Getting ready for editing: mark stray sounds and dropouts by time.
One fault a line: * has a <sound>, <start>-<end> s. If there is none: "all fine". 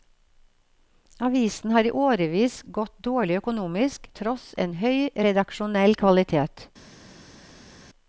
all fine